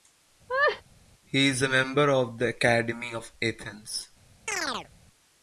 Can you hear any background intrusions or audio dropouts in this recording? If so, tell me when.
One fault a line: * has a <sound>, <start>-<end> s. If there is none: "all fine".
* has a laugh, 0.5-0.8 s
* has a chirp, 4.5-4.9 s